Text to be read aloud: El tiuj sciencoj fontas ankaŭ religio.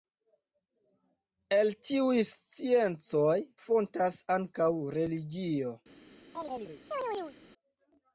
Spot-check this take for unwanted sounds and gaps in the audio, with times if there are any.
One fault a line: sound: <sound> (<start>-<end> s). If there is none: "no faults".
sound: chirp (6.3-7.4 s)